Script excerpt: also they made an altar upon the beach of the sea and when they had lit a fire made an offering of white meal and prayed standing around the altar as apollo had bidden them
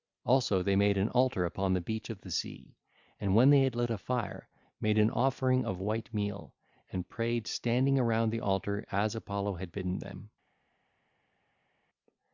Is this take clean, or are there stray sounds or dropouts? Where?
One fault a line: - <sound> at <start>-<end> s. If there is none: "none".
none